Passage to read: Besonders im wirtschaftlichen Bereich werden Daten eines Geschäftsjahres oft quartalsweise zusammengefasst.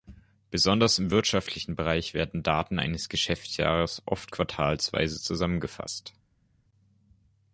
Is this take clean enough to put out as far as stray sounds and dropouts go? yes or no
yes